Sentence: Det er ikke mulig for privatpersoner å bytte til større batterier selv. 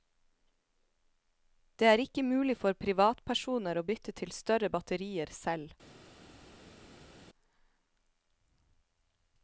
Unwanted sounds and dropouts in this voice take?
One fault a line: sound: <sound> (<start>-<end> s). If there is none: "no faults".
no faults